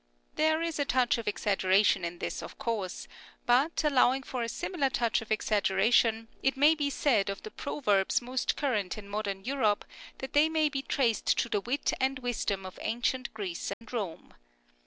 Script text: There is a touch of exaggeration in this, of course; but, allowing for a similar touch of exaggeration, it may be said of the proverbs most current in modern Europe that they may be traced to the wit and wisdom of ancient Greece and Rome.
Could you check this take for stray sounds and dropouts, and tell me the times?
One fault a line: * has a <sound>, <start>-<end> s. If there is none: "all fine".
* has a dropout, 13.7-13.8 s